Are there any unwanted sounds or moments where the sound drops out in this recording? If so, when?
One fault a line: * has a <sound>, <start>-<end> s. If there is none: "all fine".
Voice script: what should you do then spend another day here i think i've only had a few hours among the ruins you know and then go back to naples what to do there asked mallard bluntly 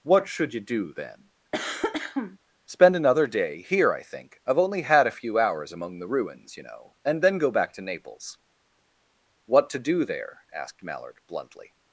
* has a cough, 1.5-2.4 s